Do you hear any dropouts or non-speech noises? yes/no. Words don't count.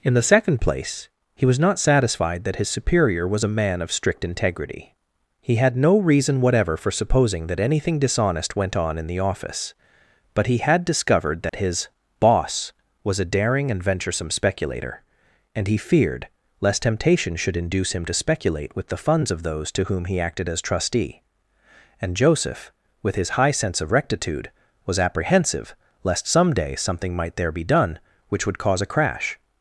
yes